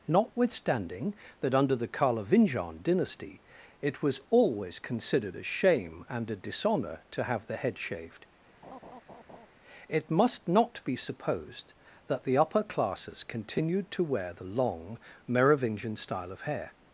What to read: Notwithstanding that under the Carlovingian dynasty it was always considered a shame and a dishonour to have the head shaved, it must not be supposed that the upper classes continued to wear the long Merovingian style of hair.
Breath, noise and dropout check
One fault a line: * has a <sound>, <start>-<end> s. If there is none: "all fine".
* has a laugh, 8.6-9.5 s